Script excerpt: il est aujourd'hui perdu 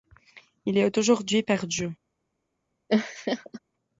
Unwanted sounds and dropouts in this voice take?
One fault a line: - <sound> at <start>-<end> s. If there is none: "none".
- laugh at 2.9-3.6 s